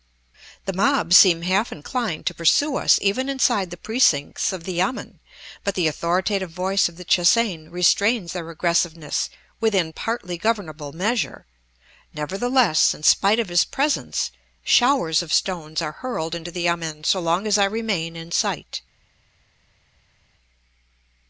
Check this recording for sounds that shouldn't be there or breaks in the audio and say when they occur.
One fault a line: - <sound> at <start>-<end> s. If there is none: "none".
none